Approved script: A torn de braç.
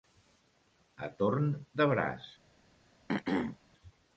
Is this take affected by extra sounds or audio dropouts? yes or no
yes